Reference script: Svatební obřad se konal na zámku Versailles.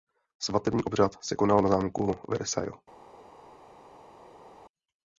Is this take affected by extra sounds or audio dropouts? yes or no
no